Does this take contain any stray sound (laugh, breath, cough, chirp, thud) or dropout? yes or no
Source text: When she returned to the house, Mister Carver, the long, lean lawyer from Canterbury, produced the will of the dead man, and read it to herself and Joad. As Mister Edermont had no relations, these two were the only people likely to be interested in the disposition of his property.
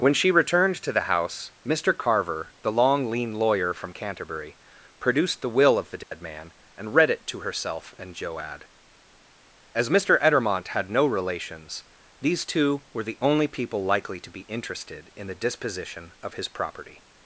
yes